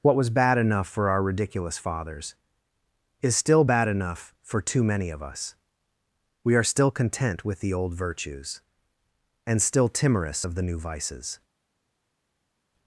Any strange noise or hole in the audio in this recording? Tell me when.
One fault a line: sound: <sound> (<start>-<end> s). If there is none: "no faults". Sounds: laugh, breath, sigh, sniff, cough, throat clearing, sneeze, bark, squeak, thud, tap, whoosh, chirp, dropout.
no faults